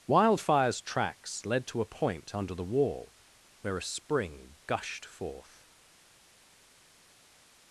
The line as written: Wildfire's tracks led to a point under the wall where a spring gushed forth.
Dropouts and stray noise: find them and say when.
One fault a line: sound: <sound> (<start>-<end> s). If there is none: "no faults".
no faults